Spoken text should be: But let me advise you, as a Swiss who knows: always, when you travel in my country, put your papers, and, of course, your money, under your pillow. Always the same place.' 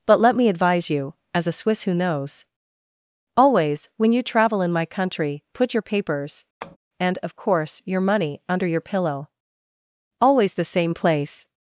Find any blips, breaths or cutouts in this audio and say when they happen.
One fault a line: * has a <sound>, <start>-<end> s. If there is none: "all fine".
* has a tap, 6.6-6.8 s